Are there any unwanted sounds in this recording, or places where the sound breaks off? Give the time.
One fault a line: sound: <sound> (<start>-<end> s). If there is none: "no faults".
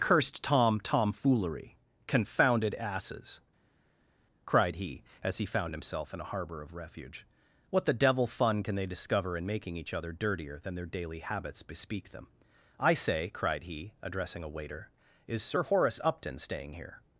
no faults